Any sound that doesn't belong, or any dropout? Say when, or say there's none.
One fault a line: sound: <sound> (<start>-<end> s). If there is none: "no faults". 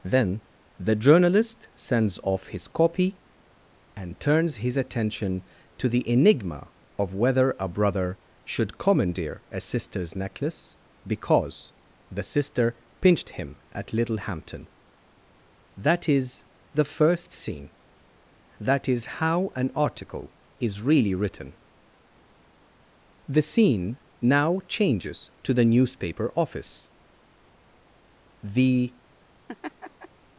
sound: laugh (29.5-30.1 s)